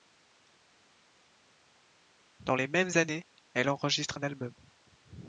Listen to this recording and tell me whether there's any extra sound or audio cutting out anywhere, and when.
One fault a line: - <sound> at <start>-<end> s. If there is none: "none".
none